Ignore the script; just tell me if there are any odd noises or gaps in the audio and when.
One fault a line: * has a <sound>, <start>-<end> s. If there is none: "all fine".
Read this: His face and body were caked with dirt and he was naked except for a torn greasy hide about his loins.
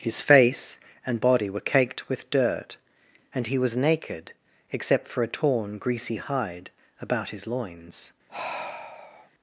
* has a sigh, 8.3-9.3 s